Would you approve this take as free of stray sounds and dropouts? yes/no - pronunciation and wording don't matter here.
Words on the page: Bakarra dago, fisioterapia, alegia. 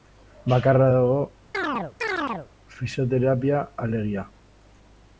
no